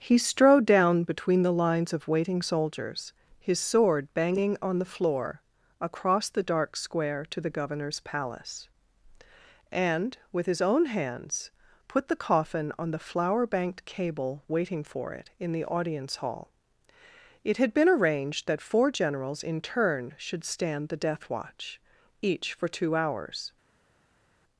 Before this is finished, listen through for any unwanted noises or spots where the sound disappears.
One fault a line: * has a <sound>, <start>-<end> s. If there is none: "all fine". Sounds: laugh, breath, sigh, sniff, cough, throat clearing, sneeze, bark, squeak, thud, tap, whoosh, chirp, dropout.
all fine